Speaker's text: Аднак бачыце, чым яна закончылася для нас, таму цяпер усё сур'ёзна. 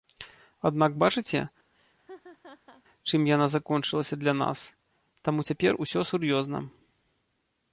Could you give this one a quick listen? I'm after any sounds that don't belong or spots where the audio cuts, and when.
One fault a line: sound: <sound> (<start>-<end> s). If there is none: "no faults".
sound: laugh (1.7-2.8 s)